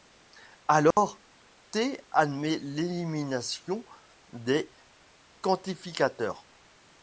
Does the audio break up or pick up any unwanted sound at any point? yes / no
yes